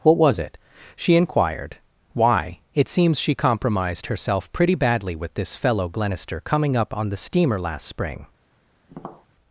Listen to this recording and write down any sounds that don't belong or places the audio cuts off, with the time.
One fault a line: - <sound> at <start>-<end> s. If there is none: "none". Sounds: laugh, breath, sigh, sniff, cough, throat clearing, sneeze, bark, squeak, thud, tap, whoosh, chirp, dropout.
- tap at 8.9-9.3 s